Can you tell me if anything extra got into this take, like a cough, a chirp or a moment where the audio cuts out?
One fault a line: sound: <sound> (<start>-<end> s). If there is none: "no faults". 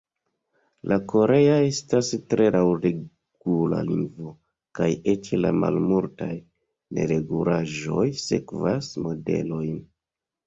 no faults